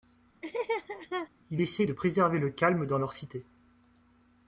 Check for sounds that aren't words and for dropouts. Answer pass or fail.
fail